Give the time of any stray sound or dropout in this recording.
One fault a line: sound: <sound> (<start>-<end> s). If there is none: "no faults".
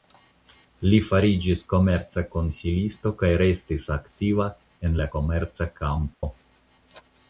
sound: dropout (6.1-6.2 s)